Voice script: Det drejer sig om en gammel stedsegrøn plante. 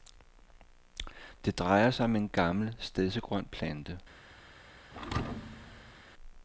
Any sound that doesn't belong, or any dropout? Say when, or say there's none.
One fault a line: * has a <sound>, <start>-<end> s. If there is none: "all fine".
* has a thud, 4.9-6.0 s